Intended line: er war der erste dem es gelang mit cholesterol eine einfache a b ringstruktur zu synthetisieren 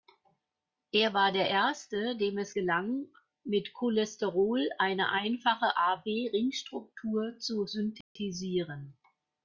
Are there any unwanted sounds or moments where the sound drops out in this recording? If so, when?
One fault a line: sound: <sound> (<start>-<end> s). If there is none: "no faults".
sound: dropout (8.0-8.2 s)